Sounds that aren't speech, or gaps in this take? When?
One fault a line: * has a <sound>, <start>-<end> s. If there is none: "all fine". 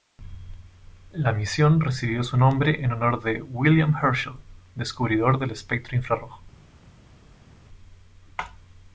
all fine